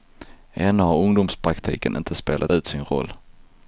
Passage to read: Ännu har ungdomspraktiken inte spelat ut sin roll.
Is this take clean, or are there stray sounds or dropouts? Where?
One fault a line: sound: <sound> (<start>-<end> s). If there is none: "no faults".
no faults